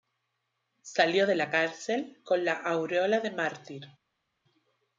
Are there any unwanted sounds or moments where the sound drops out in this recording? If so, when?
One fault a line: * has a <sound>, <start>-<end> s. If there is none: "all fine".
all fine